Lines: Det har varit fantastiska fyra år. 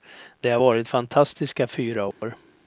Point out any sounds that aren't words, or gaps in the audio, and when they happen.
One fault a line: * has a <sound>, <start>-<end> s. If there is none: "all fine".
* has a dropout, 2.1-2.2 s